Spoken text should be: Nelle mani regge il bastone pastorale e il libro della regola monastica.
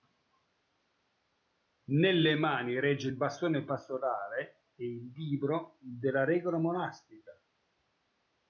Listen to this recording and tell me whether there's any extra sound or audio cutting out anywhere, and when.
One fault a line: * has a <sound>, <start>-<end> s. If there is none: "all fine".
all fine